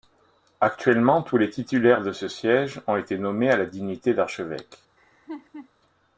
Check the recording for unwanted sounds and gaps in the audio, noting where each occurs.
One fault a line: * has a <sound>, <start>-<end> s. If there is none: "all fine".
* has a laugh, 5.0-5.7 s